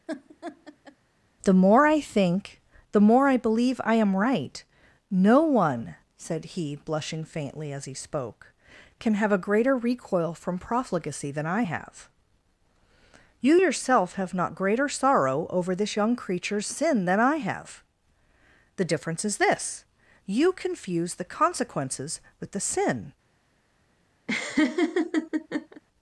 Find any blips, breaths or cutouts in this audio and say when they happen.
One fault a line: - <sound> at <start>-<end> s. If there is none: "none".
- laugh at 0.1-1.0 s
- laugh at 24.3-25.8 s